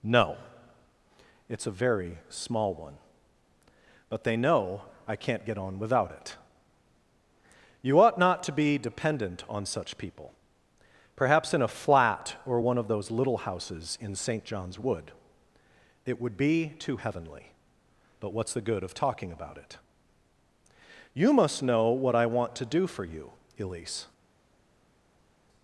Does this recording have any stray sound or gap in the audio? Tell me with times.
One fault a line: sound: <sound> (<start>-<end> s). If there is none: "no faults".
no faults